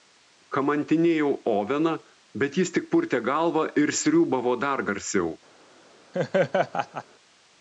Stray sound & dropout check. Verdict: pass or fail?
fail